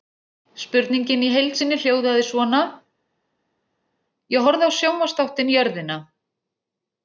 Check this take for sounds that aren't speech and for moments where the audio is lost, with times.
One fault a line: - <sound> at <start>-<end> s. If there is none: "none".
none